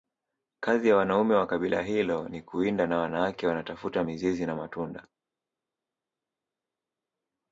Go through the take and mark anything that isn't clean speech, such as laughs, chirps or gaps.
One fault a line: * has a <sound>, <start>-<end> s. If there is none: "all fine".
all fine